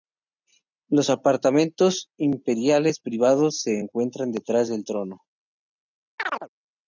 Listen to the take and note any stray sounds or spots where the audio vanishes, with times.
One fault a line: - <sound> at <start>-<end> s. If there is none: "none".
- chirp at 6.2-6.5 s